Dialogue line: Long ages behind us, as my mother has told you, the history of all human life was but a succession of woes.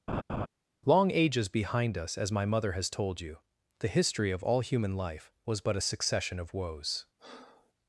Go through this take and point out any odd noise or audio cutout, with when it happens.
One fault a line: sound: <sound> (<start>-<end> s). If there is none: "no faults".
sound: laugh (0.1-0.5 s)
sound: breath (7.2-7.7 s)